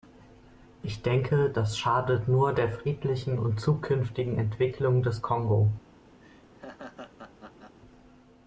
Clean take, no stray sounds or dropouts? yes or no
no